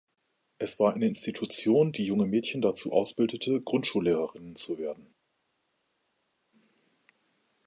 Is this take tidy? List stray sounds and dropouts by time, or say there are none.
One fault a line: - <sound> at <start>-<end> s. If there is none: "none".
none